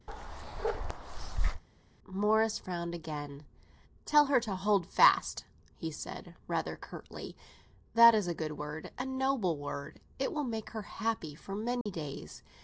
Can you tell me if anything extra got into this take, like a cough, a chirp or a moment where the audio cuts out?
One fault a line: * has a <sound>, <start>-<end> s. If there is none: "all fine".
* has a bark, 0.1-1.6 s
* has a dropout, 11.8-11.9 s